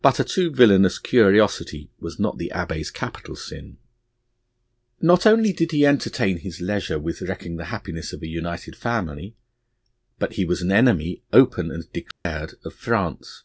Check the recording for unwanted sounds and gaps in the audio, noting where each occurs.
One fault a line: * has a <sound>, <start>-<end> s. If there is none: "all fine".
* has a dropout, 12.1-12.3 s